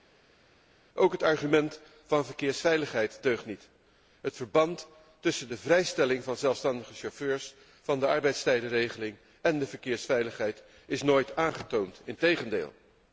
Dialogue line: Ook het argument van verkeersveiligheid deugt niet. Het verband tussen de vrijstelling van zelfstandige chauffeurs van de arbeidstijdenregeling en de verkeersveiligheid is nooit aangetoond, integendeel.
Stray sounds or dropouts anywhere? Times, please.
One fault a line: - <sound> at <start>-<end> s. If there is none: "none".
none